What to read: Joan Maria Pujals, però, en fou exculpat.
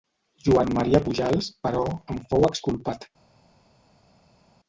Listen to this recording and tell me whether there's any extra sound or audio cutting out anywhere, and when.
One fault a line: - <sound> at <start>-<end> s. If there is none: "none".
none